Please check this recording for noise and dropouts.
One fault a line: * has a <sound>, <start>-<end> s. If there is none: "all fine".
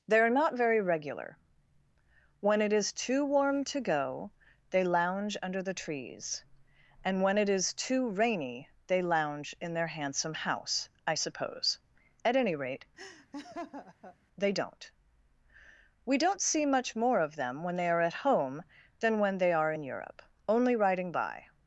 * has a laugh, 13.0-14.2 s